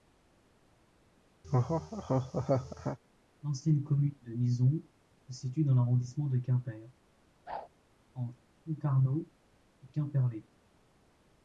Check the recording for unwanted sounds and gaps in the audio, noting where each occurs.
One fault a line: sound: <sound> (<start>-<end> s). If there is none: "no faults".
sound: laugh (1.4-3.0 s)
sound: whoosh (7.5-7.7 s)